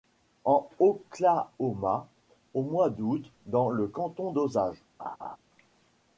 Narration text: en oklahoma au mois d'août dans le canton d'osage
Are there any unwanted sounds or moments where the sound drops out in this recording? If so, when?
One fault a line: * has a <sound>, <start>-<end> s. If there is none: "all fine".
* has a laugh, 5.0-5.4 s